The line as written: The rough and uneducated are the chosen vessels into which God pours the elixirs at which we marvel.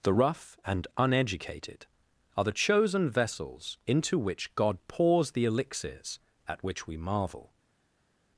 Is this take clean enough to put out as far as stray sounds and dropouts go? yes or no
yes